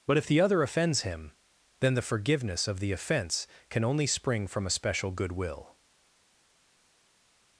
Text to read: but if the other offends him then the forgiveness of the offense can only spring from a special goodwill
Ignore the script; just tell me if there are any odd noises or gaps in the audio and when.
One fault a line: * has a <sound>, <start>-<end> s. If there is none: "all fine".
all fine